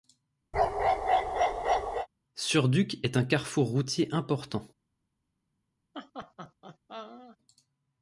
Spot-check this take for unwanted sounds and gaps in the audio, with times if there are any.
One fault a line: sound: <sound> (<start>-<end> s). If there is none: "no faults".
sound: bark (0.5-2.1 s)
sound: laugh (5.9-7.4 s)